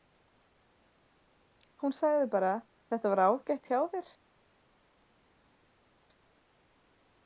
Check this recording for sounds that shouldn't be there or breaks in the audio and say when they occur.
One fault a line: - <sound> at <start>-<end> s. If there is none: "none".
none